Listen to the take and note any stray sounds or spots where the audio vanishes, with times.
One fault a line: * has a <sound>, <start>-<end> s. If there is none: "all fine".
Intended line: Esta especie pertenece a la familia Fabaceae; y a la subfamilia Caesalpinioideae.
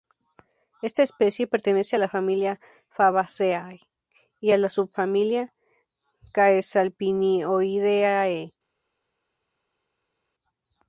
all fine